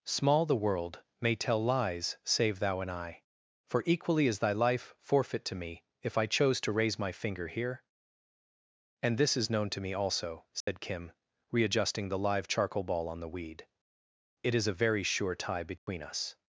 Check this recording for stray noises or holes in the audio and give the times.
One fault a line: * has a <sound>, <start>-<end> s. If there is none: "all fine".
* has a dropout, 10.6-10.7 s
* has a dropout, 15.8-15.9 s